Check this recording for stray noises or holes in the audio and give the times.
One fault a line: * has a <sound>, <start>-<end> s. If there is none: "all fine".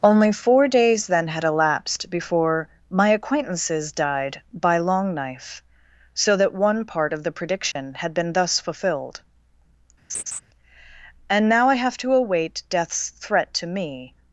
* has a dropout, 7.7-7.8 s
* has a laugh, 10.1-10.4 s